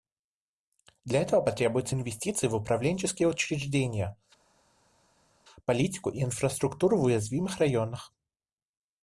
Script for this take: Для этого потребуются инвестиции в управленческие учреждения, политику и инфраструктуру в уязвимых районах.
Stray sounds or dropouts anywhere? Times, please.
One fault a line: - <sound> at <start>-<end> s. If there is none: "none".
none